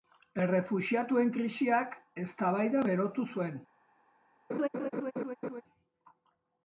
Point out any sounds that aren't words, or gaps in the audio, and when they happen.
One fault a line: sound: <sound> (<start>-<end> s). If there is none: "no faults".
sound: laugh (4.5-5.6 s)